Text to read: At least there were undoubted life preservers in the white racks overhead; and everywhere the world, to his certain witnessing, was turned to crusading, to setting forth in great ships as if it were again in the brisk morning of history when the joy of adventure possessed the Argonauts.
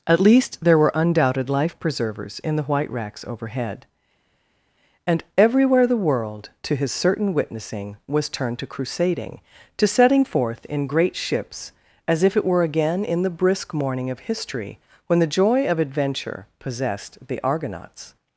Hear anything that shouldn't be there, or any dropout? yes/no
no